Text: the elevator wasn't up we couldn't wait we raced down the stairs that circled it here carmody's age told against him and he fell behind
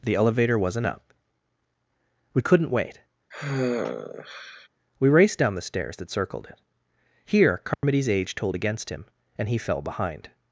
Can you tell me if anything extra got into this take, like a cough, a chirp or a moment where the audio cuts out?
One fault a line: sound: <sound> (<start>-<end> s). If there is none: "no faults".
sound: sigh (3.3-4.7 s)
sound: dropout (7.7-7.8 s)